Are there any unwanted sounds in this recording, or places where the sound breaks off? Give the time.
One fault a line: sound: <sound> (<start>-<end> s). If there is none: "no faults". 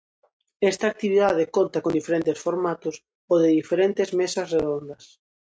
no faults